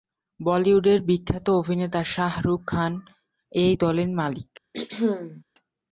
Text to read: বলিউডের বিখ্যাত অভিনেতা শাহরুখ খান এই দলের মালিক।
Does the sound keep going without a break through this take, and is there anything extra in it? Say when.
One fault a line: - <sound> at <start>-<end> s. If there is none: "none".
- throat clearing at 4.7-5.4 s